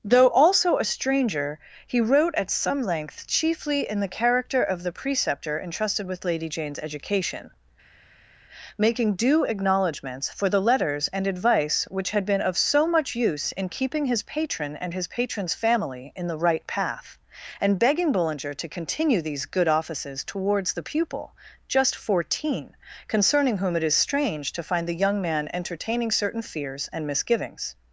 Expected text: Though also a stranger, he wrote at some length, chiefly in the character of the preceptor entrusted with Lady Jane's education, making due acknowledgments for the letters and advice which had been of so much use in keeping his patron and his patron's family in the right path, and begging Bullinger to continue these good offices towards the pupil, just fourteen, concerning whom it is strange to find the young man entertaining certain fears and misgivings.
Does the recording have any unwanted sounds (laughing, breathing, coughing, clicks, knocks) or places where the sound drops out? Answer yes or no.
no